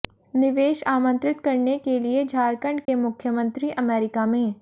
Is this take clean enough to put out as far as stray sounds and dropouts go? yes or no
no